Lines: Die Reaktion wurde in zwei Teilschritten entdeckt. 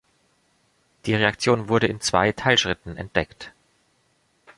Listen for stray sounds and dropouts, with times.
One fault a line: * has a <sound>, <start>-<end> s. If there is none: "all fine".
all fine